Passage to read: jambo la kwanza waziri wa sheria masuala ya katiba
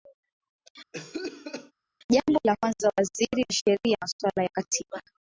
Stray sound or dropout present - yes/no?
yes